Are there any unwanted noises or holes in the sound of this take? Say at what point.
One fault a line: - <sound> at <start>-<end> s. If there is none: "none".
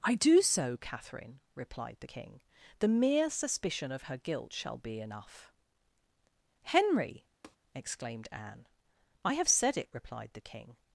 - tap at 7.4-7.6 s